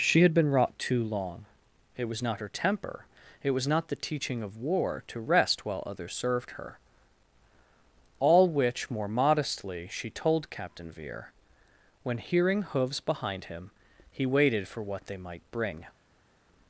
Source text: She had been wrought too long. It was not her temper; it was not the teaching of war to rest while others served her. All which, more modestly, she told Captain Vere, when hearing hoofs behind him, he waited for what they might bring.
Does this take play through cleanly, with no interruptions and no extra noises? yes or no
yes